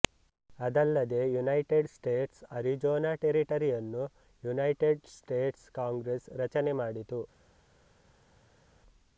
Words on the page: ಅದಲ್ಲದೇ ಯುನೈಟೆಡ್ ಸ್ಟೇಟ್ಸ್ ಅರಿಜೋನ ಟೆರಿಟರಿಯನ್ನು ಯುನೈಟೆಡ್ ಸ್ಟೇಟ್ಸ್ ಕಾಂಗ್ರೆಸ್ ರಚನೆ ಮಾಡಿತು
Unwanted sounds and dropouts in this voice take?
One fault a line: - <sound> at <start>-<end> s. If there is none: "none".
none